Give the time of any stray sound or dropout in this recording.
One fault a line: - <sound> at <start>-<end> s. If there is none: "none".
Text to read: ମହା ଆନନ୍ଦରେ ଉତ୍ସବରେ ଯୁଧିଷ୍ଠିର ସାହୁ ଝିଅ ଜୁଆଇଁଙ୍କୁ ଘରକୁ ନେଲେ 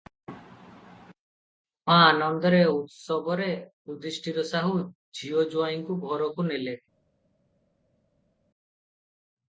none